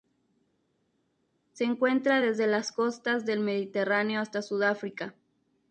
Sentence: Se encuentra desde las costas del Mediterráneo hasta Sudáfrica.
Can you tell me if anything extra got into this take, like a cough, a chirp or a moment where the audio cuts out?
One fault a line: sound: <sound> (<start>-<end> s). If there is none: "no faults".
no faults